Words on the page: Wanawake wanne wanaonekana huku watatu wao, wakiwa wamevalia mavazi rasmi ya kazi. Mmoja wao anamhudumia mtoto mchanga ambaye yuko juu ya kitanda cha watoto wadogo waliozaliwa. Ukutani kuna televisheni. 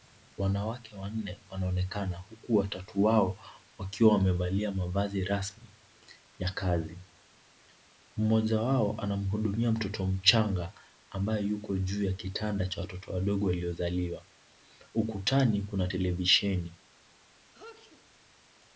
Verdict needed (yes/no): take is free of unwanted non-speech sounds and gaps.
no